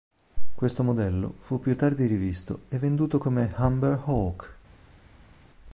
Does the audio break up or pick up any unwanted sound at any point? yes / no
no